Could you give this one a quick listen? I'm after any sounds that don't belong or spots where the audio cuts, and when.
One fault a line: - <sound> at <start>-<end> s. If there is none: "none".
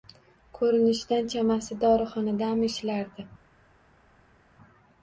none